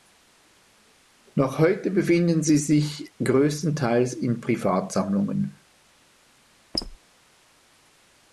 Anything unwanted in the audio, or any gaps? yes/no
yes